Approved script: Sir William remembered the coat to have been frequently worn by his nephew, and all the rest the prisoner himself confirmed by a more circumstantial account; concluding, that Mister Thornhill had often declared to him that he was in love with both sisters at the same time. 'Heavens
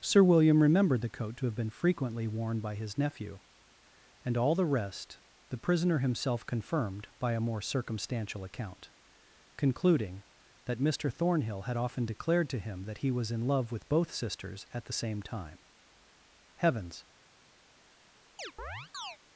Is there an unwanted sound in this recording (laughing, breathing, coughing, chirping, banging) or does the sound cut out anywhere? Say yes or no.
yes